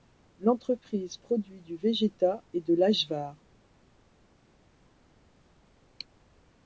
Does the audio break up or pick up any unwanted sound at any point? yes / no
no